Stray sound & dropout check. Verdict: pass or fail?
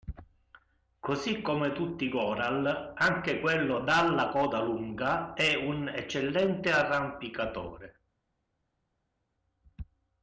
pass